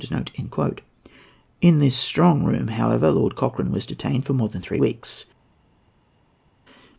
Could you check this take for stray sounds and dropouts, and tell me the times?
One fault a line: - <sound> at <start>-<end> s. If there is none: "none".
none